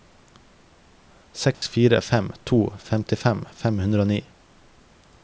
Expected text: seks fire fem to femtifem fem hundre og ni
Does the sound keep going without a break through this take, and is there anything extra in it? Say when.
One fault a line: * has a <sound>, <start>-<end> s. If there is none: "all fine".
* has a dropout, 1.5-1.6 s